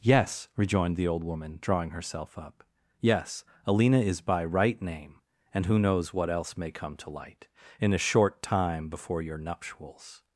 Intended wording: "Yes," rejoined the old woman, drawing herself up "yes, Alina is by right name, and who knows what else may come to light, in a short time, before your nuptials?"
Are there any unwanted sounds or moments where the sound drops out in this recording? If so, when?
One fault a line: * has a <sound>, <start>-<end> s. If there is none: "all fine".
all fine